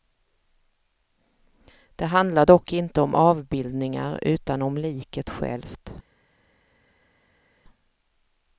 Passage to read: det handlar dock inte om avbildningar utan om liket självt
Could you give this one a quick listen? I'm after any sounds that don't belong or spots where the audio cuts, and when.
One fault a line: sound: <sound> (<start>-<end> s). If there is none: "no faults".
no faults